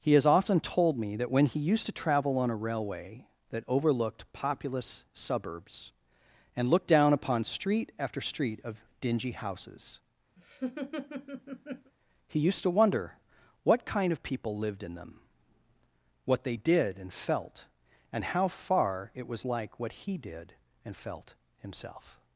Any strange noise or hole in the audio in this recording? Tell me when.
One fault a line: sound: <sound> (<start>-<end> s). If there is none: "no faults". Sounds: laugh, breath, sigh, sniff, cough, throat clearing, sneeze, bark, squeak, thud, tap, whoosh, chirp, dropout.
sound: laugh (10.4-11.9 s)